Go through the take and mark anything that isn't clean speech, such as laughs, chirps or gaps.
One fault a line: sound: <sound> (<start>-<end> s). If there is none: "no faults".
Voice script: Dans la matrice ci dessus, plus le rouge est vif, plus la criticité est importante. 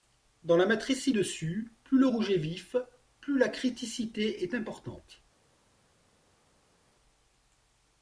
no faults